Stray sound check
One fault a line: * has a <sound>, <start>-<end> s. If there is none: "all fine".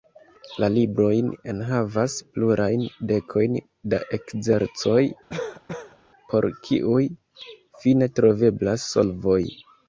* has a cough, 5.3-6.0 s